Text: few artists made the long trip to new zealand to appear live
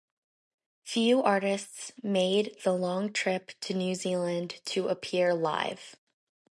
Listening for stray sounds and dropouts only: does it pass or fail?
pass